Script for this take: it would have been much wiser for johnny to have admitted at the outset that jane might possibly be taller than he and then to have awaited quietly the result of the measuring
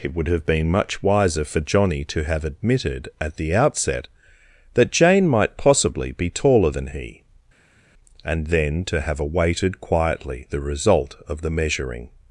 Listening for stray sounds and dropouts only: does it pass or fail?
pass